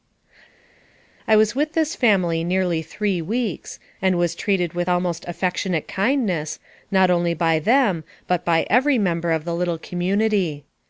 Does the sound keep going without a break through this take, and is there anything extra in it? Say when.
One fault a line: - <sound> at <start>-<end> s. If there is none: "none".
none